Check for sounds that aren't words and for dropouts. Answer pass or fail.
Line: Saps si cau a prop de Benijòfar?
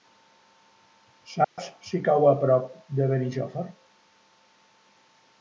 fail